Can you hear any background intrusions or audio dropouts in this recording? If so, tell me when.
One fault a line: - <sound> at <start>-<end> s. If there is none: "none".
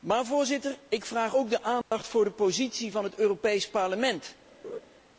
- dropout at 1.8-1.9 s
- laugh at 4.6-4.8 s